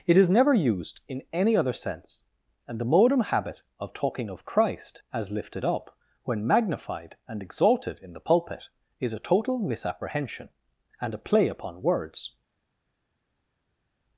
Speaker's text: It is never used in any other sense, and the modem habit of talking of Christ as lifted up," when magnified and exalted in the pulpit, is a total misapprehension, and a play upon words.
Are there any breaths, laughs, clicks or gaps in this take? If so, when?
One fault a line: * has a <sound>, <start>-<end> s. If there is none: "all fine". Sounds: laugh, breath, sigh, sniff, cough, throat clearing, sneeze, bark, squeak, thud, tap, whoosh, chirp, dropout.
all fine